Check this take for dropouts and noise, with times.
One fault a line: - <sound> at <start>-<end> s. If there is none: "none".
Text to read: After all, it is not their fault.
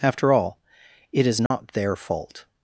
- dropout at 1.5-1.5 s